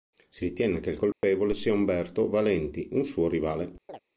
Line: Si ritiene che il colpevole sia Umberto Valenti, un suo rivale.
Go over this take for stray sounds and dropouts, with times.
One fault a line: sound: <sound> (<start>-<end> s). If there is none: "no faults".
sound: dropout (1.1-1.2 s)
sound: chirp (3.9-4.0 s)